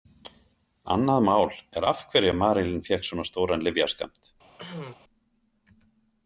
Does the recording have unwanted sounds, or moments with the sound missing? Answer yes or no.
yes